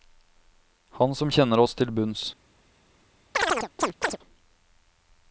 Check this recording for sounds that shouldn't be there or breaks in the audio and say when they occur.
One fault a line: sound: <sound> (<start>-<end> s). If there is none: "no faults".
sound: chirp (3.3-4.2 s)